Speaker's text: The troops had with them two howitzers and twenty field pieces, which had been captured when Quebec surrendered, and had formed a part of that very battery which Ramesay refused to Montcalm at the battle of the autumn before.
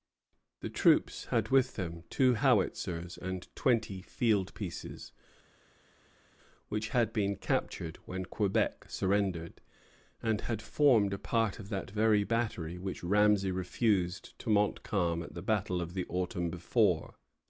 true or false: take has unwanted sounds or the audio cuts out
false